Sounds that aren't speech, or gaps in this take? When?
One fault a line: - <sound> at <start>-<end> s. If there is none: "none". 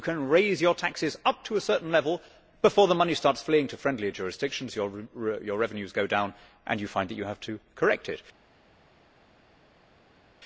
none